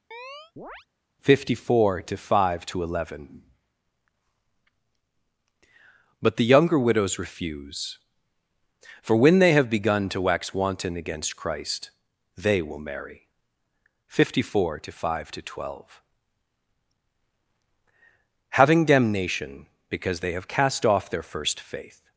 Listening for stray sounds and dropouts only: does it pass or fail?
fail